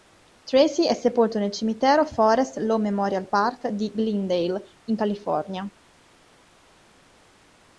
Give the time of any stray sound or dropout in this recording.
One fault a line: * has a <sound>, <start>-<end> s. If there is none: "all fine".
all fine